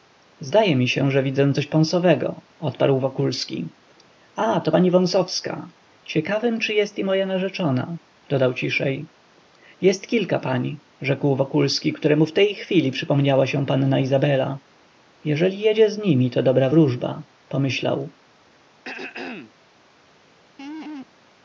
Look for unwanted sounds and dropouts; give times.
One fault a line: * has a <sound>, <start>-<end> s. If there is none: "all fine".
* has a throat clearing, 18.8-19.5 s
* has a laugh, 20.6-21.1 s